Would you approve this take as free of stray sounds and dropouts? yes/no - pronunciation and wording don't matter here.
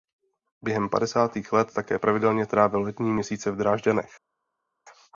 yes